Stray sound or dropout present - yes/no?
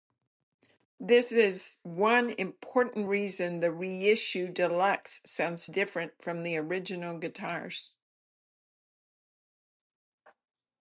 no